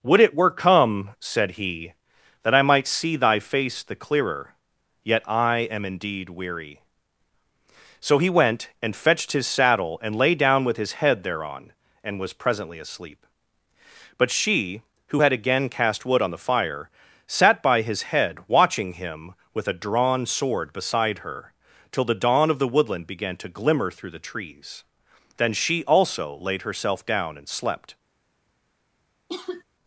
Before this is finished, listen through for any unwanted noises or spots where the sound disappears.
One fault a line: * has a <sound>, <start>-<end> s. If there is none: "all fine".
* has a cough, 29.3-29.6 s